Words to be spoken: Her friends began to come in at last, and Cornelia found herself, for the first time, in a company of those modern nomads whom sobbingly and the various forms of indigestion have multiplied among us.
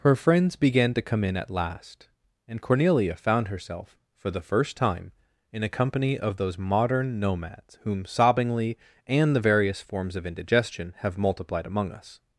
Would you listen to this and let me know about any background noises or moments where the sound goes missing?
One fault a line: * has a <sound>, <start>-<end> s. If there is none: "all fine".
all fine